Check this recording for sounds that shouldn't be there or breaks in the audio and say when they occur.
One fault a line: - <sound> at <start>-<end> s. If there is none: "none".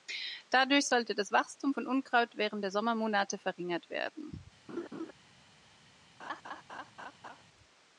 - laugh at 4.7-5.1 s
- laugh at 6.2-7.4 s